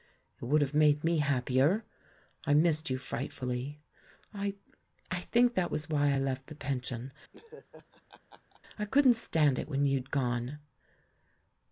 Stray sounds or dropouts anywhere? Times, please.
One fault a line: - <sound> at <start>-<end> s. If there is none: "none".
- laugh at 7.3-8.6 s